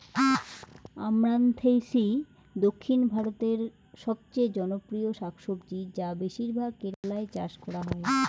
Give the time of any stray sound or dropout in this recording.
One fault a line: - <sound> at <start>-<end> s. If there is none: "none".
- dropout at 6.9-7.0 s